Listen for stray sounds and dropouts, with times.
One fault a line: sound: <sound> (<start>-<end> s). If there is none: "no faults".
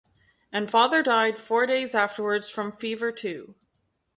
no faults